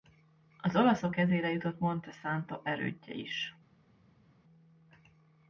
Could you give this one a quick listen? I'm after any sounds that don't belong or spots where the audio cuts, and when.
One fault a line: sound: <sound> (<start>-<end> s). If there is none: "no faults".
no faults